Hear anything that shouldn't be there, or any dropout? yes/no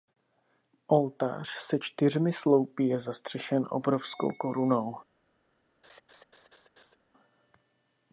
yes